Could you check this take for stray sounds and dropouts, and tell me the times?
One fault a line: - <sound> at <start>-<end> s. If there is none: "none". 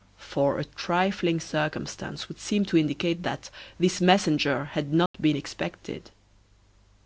- dropout at 5.1-5.1 s